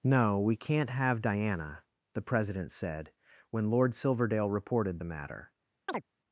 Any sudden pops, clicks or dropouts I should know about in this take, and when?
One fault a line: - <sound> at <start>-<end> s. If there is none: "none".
- chirp at 5.9-6.0 s